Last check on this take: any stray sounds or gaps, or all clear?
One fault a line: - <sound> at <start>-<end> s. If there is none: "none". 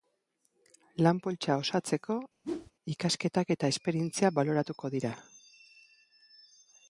- whoosh at 2.4-2.7 s